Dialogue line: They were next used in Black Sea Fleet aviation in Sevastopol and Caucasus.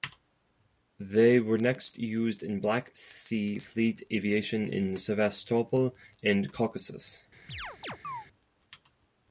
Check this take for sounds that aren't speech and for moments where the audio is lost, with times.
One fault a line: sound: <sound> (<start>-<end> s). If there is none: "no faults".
sound: chirp (7.5-8.3 s)